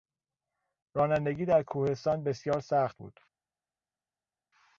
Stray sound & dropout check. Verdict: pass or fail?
pass